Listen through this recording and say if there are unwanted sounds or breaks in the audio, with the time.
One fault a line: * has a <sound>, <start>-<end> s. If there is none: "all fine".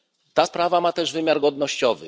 all fine